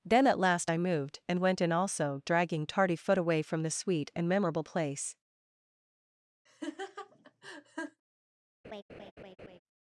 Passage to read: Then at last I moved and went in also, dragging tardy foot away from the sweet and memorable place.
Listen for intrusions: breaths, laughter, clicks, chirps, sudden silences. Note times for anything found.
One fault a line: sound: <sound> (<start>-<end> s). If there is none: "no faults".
sound: laugh (6.5-8.0 s)
sound: laugh (8.6-9.6 s)